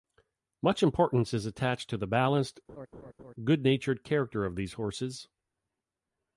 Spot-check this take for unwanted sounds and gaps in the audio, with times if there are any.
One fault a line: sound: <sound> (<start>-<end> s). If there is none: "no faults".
sound: laugh (2.7-3.3 s)